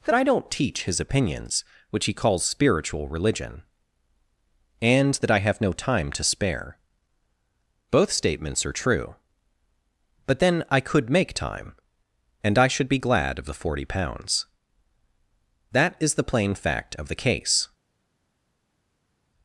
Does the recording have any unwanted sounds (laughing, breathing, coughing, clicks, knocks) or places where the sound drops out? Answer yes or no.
no